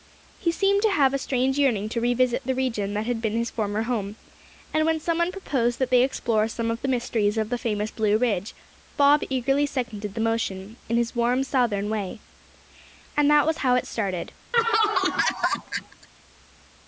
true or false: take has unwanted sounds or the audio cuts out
true